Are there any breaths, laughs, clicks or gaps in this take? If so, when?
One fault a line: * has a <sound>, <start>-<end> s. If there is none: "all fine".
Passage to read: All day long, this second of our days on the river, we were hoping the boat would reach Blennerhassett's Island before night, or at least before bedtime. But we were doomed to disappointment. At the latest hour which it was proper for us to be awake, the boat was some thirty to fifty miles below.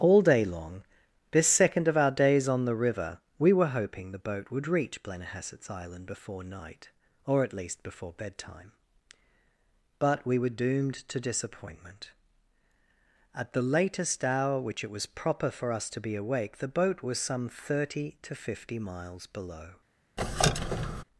* has a squeak, 20.2-21.0 s